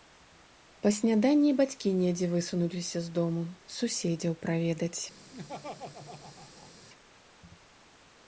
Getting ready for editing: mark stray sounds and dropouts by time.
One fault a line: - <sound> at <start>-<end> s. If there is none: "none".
- laugh at 5.3-6.7 s